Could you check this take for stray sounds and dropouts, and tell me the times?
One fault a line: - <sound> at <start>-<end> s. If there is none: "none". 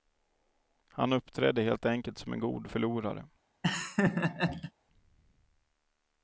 - laugh at 3.6-4.7 s